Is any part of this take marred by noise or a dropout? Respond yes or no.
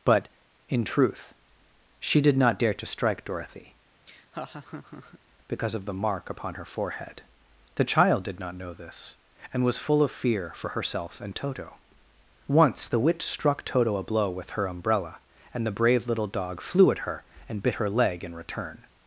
yes